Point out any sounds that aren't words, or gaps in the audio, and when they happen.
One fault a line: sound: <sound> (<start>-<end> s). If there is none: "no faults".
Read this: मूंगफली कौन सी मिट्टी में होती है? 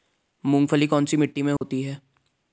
sound: dropout (1.6-1.6 s)